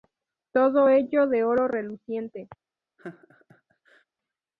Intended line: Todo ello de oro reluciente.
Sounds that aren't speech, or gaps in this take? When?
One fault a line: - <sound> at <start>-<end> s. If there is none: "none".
- laugh at 3.0-4.0 s